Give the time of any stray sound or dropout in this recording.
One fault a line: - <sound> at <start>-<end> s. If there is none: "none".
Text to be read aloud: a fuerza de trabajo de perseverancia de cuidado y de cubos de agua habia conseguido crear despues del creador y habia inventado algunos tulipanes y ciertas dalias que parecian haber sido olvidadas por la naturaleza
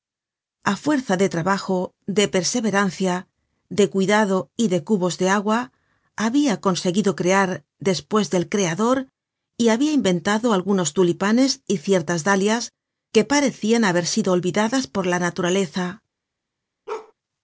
- bark at 16.9-17.1 s